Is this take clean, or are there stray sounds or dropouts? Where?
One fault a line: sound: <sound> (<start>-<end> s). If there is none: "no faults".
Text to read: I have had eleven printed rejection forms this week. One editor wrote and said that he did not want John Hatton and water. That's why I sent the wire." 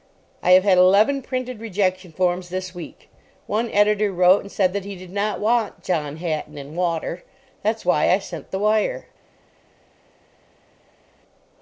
no faults